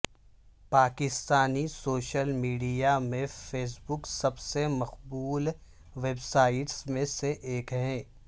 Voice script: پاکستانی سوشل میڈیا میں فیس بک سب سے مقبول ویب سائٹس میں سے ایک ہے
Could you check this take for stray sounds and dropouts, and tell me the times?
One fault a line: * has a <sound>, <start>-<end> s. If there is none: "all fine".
all fine